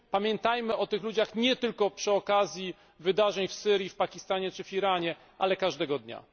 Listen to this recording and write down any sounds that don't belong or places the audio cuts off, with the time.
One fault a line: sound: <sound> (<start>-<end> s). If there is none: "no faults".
no faults